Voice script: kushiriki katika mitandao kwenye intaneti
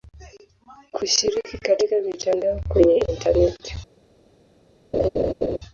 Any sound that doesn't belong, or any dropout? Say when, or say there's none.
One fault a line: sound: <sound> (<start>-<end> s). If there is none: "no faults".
sound: laugh (4.9-5.6 s)